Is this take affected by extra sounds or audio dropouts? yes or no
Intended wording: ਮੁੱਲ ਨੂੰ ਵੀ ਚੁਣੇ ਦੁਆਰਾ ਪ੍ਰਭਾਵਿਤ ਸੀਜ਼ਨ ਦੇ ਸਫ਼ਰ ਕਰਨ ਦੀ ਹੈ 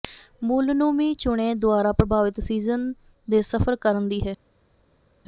no